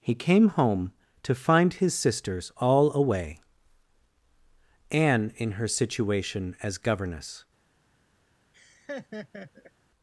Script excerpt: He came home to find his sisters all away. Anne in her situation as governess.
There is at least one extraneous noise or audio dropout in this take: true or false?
true